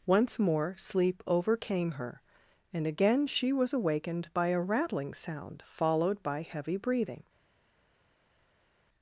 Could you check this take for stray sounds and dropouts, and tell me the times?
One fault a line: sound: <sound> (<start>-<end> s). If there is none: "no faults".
no faults